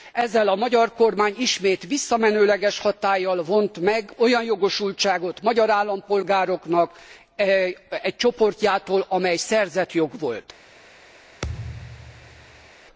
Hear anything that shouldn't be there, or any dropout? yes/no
yes